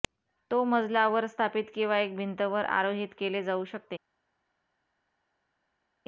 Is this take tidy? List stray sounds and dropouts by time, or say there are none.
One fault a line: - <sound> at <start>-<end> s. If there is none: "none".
none